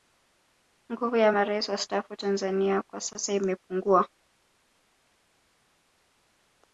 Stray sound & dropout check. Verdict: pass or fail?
pass